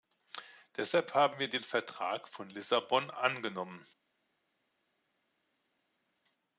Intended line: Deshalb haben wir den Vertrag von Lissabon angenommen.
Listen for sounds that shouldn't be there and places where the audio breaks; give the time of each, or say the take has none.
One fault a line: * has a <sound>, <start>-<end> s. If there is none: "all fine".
all fine